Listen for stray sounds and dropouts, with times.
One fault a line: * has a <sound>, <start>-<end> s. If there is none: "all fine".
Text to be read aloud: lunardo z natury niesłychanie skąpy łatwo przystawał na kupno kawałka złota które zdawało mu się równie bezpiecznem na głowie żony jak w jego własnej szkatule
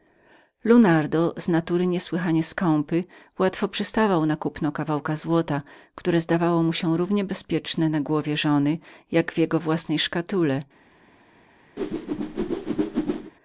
* has a whoosh, 11.8-13.3 s